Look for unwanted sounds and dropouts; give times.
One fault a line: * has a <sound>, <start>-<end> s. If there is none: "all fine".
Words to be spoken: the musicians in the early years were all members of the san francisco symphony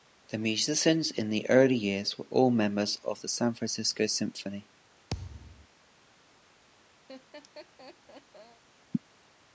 * has a thud, 5.1-5.7 s
* has a laugh, 7.1-8.6 s